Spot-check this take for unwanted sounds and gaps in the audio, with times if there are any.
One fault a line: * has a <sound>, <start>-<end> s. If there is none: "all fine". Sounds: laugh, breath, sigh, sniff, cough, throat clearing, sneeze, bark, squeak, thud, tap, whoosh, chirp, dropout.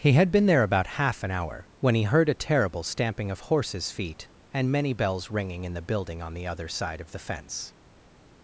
all fine